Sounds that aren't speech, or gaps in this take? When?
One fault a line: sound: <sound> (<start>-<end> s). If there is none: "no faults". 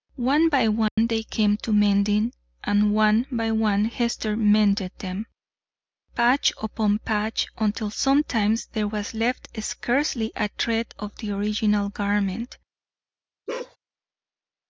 sound: dropout (0.9-1.0 s)
sound: bark (13.5-13.8 s)